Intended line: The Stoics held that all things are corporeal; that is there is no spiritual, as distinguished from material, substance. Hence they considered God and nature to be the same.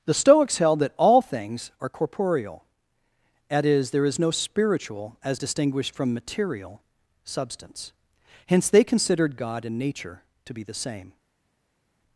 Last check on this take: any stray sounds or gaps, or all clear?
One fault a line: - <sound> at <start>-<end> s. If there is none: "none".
none